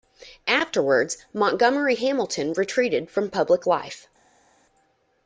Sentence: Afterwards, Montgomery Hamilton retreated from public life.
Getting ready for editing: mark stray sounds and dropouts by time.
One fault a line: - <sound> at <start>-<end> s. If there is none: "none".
none